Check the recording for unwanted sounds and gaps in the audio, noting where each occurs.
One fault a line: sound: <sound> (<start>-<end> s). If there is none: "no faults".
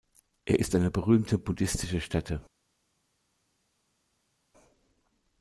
no faults